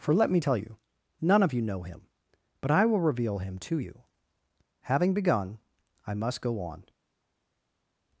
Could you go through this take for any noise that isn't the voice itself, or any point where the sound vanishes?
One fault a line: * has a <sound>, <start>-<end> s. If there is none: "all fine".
all fine